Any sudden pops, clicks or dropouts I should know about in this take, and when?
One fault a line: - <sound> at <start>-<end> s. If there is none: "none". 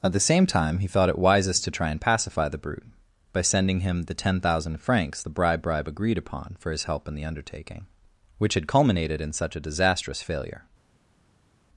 none